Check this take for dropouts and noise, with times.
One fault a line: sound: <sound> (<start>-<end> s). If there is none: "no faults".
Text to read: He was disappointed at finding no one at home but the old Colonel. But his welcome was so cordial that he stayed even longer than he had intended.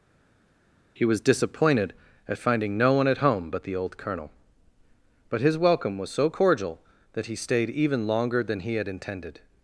no faults